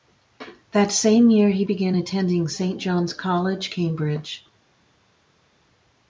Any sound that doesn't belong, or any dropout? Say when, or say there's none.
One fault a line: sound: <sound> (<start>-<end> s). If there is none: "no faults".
no faults